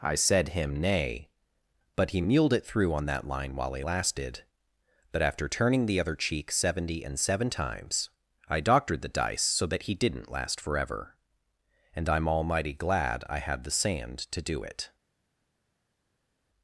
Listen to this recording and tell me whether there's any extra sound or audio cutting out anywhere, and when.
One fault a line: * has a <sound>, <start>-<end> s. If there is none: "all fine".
all fine